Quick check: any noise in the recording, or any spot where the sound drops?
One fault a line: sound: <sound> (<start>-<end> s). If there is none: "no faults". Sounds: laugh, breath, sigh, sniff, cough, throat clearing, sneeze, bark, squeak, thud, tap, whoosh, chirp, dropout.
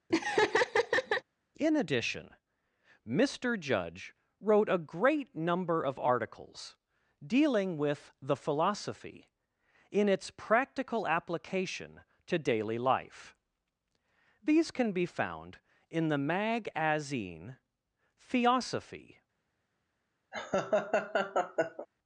sound: laugh (0.1-1.2 s)
sound: laugh (20.3-21.9 s)